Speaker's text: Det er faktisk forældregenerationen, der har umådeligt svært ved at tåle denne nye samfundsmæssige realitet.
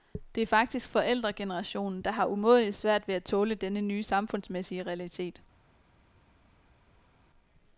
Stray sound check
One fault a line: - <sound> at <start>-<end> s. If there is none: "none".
none